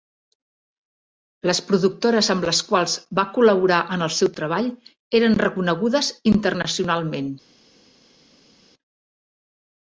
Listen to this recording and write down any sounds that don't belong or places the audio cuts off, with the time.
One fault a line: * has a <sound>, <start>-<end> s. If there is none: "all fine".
all fine